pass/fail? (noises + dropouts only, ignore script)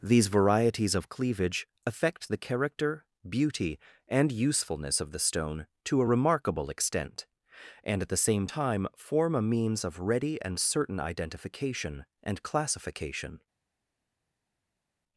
pass